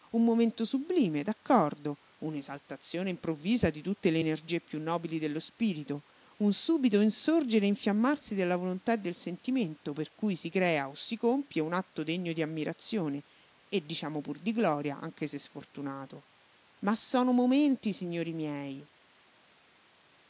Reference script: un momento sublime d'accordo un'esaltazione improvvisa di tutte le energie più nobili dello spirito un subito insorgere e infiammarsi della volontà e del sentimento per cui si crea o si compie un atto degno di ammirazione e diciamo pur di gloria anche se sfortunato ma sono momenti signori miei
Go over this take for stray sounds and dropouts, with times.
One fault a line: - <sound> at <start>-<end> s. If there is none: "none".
none